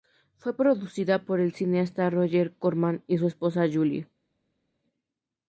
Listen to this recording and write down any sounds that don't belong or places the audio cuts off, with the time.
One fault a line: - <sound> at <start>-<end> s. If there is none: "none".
none